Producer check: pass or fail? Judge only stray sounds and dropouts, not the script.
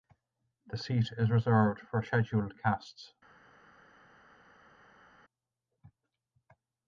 pass